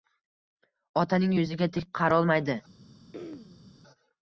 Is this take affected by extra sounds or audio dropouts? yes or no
yes